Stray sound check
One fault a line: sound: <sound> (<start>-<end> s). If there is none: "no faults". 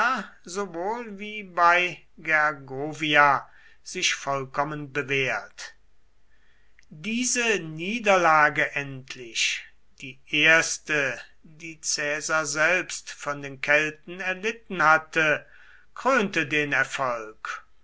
no faults